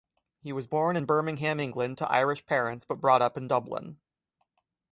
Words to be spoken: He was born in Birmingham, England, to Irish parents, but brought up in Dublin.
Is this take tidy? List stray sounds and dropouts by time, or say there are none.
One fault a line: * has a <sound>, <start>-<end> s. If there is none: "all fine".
all fine